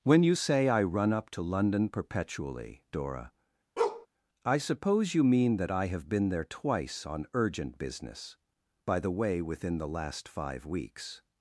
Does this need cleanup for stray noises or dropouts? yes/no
yes